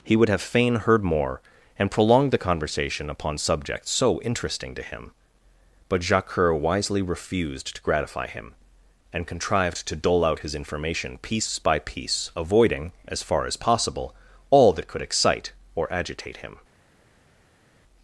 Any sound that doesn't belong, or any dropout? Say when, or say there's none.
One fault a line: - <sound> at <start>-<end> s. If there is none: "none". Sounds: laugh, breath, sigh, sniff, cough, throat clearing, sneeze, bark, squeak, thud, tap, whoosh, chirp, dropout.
none